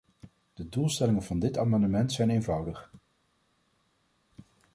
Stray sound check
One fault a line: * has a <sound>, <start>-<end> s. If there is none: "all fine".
all fine